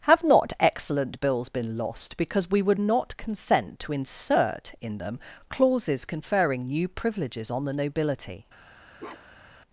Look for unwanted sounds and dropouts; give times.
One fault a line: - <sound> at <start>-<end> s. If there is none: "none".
- bark at 9.0-9.6 s